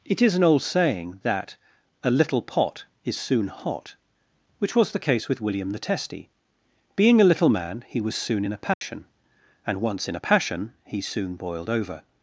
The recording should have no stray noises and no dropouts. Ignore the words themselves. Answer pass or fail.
fail